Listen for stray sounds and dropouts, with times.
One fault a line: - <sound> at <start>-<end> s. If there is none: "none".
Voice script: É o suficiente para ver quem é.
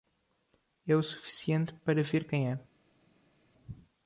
none